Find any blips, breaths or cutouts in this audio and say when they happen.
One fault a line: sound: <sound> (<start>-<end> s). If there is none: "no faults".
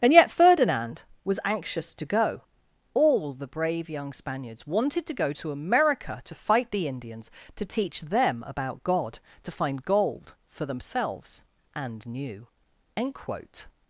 no faults